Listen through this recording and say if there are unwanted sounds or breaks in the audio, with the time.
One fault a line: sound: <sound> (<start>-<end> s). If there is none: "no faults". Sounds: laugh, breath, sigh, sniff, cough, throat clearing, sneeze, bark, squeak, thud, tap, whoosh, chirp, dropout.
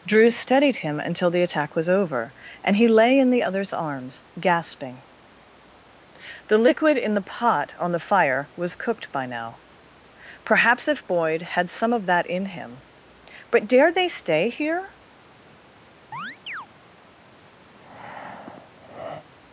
sound: chirp (16.1-16.7 s)
sound: breath (17.7-19.3 s)